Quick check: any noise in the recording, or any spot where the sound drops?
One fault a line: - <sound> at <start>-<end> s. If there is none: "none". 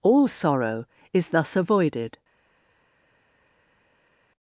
none